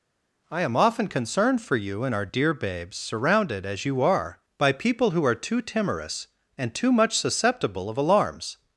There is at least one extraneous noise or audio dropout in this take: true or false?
false